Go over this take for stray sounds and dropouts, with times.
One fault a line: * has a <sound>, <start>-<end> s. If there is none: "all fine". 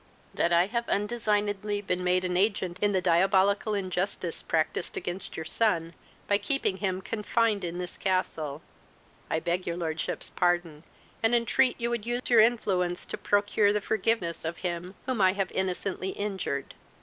* has a dropout, 12.2-12.3 s